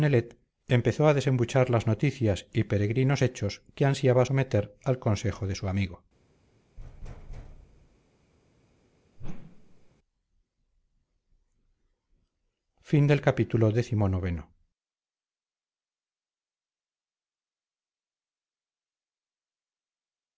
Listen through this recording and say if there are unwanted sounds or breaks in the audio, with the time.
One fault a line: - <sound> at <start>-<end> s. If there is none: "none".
- thud at 6.8-8.0 s
- whoosh at 9.2-9.9 s